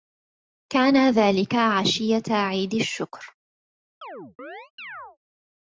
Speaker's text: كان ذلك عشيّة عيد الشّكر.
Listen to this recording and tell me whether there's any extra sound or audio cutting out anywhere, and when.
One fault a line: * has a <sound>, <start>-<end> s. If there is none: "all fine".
* has a chirp, 4.0-5.2 s